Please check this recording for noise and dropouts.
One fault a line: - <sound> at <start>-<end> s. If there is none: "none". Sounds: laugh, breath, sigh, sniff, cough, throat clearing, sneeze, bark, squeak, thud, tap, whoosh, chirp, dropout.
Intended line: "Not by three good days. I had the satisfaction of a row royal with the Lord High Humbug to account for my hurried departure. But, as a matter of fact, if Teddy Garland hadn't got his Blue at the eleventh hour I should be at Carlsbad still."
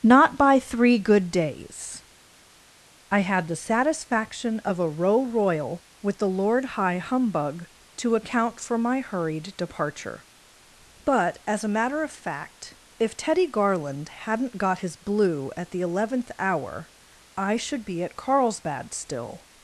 none